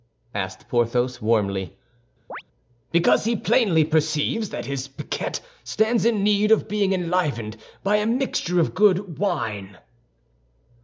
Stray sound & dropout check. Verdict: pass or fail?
fail